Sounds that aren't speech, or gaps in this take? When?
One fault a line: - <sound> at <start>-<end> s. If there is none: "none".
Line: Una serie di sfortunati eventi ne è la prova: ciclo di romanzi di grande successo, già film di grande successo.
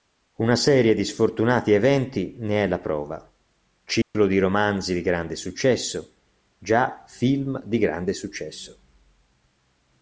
- dropout at 4.0-4.1 s